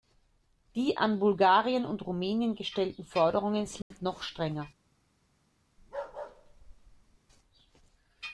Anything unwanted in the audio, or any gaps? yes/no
yes